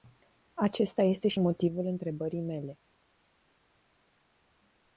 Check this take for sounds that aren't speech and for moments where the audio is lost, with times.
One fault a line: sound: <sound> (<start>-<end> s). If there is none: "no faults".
no faults